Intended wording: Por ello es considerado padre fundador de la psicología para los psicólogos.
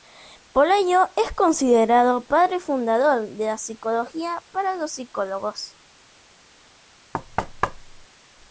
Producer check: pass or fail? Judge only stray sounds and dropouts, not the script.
fail